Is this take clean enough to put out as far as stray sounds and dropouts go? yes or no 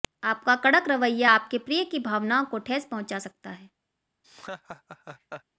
no